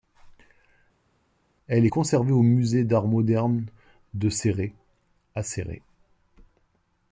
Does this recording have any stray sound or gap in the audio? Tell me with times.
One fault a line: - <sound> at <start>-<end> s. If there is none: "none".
none